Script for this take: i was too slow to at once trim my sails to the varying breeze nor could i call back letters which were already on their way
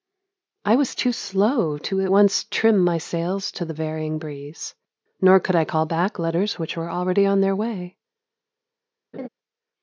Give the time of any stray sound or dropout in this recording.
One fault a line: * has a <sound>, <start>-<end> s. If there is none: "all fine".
* has a laugh, 9.1-9.3 s